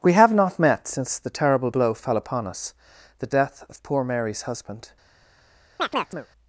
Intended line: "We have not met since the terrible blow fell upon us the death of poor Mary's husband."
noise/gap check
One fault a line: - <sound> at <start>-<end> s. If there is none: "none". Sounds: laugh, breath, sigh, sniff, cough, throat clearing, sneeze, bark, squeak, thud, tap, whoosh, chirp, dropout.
- chirp at 5.8-6.3 s